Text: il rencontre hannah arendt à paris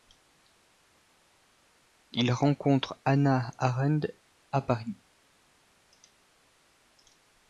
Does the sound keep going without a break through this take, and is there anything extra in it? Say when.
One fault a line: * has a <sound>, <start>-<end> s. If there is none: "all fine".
all fine